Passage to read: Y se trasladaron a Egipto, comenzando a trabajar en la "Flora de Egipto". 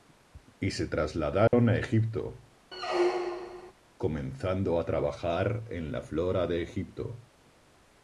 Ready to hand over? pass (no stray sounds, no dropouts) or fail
fail